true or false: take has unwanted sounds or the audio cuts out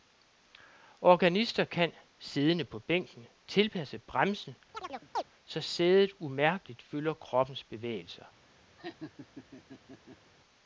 true